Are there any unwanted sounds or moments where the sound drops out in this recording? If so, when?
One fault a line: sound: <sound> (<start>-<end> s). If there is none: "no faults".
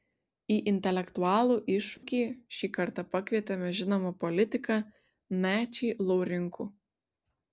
sound: dropout (2.0-2.0 s)